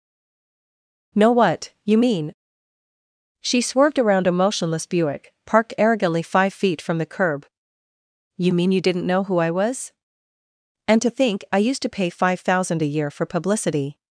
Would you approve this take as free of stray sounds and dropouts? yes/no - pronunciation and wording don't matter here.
yes